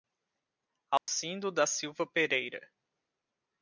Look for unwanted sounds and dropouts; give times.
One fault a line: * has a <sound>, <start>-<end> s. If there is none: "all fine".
* has a dropout, 1.0-1.1 s